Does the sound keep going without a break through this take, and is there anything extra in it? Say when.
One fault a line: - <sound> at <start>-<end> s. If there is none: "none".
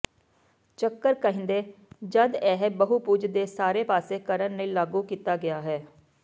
none